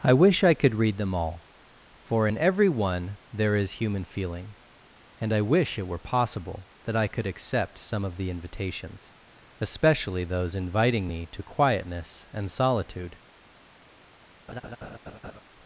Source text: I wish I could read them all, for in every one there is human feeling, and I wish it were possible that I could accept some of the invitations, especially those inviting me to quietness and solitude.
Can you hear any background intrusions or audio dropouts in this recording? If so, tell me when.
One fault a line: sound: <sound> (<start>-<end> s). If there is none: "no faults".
sound: laugh (14.5-15.4 s)